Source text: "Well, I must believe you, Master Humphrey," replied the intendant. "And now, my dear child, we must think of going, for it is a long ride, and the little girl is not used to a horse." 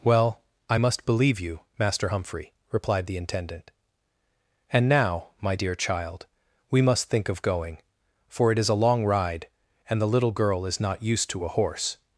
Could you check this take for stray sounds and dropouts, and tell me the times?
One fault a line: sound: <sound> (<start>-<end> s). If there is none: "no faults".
no faults